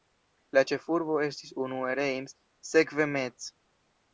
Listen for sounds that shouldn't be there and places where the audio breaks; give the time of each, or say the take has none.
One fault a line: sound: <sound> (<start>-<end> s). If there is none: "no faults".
no faults